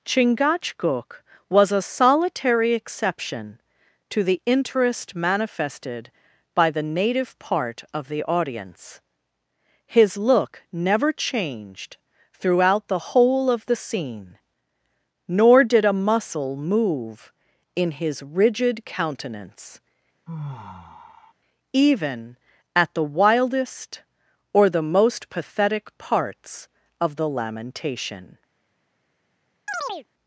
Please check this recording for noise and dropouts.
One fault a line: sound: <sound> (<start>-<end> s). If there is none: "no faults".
sound: sigh (20.3-21.3 s)
sound: chirp (29.7-30.1 s)